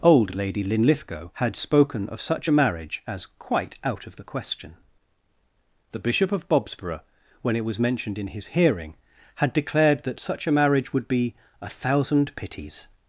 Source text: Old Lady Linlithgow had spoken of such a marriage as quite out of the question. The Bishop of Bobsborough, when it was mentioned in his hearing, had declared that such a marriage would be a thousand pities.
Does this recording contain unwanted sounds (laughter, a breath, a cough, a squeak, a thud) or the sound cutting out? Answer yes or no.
no